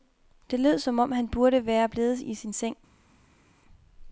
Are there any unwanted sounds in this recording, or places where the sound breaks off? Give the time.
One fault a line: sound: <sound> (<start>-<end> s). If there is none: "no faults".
no faults